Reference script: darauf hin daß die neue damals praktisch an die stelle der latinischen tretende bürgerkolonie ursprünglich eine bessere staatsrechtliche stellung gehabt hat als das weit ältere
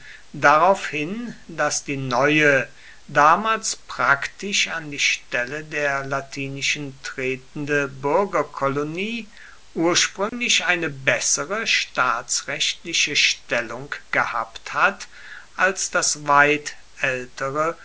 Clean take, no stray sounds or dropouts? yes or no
no